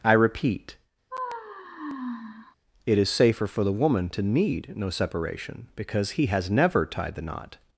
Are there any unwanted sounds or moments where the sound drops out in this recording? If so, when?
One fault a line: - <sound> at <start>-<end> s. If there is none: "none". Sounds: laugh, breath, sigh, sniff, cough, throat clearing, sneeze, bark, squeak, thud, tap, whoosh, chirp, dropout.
- sigh at 1.1-2.6 s